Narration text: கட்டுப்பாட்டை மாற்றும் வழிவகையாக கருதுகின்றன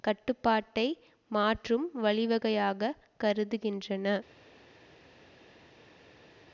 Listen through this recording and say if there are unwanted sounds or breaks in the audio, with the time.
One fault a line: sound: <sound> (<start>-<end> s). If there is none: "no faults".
no faults